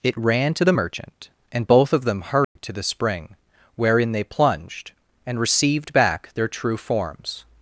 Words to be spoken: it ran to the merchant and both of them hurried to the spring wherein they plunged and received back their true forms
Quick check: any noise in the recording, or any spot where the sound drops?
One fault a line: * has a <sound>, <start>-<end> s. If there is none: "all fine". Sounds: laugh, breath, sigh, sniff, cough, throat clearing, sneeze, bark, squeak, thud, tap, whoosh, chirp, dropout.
* has a dropout, 2.4-2.6 s